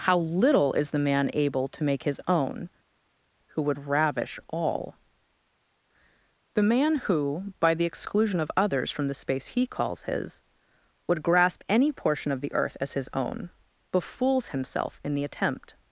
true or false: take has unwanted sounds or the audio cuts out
false